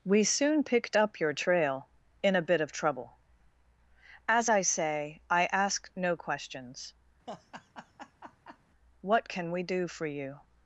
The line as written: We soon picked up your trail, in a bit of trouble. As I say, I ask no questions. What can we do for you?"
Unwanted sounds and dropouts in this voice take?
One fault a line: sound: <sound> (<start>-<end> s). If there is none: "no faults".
sound: laugh (7.3-8.6 s)